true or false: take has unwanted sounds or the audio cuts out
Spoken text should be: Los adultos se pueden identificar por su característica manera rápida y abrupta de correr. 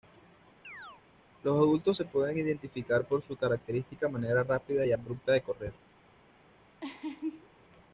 true